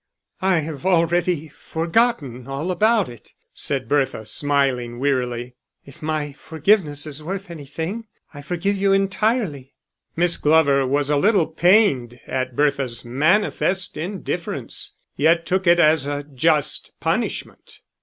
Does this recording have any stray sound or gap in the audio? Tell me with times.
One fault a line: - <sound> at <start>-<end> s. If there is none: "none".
none